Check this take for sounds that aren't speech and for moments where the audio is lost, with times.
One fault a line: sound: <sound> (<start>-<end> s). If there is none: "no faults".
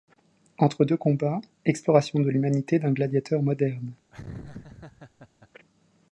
sound: laugh (4.1-5.5 s)